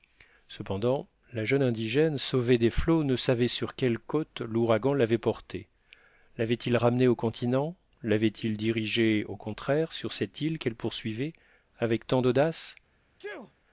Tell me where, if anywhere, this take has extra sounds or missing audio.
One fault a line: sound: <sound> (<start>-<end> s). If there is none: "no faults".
sound: sneeze (13.2-13.5 s)